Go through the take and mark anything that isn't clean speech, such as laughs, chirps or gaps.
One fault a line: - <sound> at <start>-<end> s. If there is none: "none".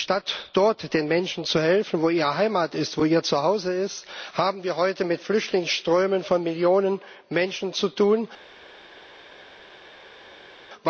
none